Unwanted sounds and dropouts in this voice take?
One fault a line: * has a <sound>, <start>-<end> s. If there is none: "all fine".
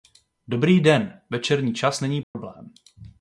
* has a dropout, 2.2-2.3 s